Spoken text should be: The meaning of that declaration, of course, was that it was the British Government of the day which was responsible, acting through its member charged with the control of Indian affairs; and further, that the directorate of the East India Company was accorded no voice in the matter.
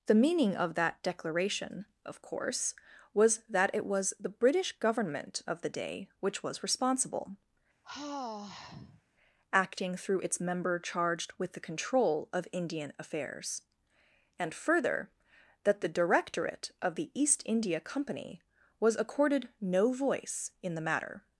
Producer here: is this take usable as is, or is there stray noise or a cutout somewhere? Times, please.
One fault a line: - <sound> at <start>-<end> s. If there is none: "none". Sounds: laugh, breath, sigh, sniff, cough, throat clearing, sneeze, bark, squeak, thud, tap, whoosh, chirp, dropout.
- sigh at 7.8-9.0 s